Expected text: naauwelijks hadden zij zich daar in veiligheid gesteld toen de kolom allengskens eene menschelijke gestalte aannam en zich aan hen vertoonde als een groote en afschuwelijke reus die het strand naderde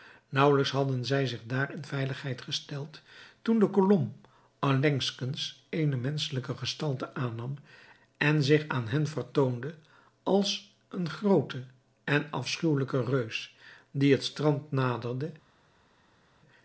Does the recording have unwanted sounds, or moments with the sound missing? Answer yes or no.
no